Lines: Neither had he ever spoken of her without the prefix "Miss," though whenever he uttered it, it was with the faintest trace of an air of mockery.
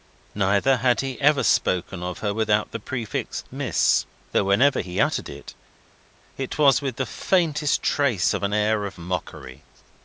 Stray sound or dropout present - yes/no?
no